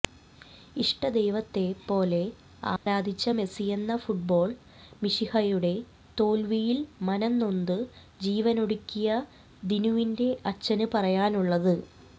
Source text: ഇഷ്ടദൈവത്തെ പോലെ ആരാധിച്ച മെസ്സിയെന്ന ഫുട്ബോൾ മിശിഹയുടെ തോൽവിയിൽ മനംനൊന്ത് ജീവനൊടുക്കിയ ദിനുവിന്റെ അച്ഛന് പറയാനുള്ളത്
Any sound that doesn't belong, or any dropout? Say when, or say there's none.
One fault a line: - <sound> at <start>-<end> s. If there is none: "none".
- dropout at 2.8-2.9 s